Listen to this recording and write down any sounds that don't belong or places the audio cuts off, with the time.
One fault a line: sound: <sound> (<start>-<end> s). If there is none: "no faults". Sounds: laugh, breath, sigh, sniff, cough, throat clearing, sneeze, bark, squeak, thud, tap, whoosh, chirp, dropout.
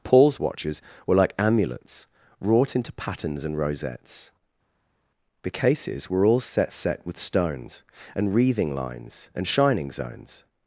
no faults